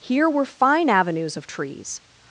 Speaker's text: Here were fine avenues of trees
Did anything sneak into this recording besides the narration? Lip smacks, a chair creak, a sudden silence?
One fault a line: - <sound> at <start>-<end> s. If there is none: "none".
none